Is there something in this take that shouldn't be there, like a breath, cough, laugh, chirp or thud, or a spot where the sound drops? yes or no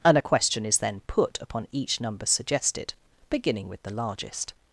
no